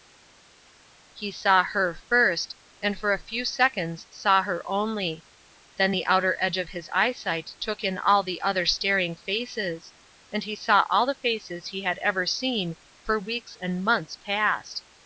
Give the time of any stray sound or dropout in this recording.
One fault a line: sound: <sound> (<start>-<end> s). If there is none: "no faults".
no faults